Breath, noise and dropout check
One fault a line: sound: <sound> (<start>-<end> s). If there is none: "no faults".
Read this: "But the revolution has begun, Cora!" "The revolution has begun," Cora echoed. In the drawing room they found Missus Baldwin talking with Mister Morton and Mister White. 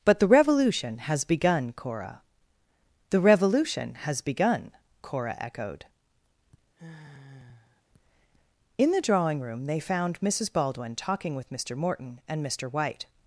sound: sigh (6.8-7.8 s)